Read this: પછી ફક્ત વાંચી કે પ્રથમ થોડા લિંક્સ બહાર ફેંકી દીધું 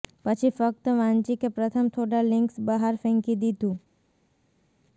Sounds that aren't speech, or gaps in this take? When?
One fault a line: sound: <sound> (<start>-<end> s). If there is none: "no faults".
no faults